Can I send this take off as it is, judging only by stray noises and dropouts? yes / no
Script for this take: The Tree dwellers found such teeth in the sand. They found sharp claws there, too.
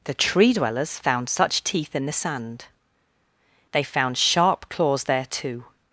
yes